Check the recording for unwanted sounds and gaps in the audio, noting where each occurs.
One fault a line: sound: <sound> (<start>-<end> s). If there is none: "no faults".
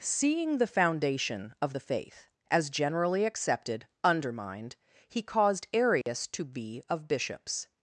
sound: dropout (6.0-6.1 s)